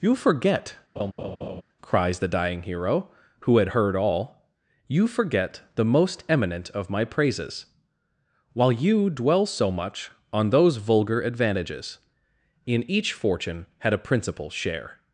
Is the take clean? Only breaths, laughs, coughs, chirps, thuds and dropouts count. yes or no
no